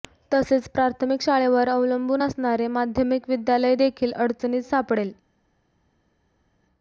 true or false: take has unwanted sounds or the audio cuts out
false